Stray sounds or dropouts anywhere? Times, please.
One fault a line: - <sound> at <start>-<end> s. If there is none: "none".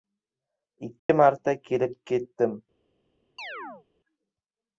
- dropout at 1.0-1.1 s
- chirp at 3.4-3.9 s